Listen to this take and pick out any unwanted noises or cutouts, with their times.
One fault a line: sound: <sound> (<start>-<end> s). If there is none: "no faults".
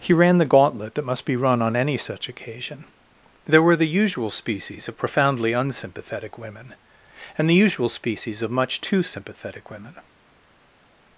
no faults